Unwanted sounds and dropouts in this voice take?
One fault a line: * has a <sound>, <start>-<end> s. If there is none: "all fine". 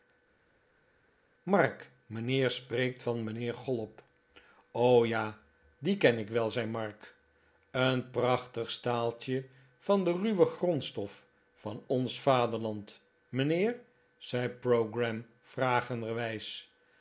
all fine